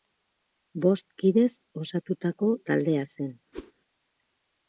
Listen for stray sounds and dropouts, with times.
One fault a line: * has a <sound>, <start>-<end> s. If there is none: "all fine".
* has a whoosh, 3.5-3.7 s